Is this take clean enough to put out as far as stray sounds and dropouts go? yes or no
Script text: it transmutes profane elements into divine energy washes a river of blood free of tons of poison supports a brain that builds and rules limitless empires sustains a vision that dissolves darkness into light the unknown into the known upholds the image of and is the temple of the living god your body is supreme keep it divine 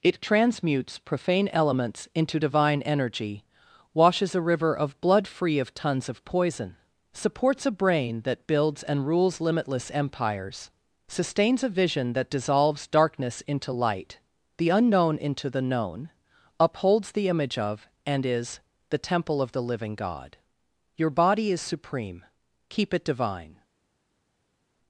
yes